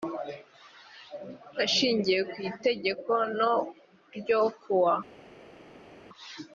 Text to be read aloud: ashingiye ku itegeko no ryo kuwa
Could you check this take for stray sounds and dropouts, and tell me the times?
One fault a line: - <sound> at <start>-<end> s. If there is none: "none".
none